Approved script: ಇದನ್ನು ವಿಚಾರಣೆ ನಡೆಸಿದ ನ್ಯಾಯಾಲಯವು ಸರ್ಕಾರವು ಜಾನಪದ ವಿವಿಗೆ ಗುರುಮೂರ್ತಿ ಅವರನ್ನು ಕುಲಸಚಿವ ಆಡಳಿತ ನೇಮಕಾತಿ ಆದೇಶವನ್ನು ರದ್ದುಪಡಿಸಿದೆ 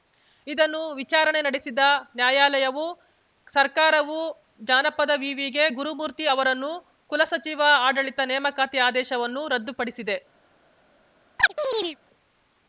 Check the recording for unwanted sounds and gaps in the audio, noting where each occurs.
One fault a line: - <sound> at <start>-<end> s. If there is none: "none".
- chirp at 11.4-12.0 s